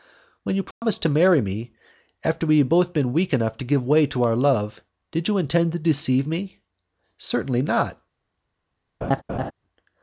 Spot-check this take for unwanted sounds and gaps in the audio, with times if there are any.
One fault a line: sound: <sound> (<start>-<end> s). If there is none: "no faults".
sound: dropout (0.7-0.8 s)
sound: laugh (9.0-9.5 s)